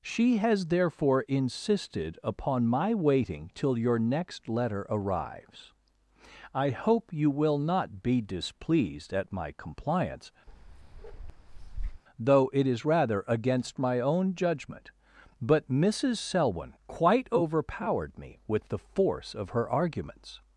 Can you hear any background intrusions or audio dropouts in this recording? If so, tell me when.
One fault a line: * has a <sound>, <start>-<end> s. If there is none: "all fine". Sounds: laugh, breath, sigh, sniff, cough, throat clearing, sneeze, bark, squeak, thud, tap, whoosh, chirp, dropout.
* has a bark, 10.5-12.0 s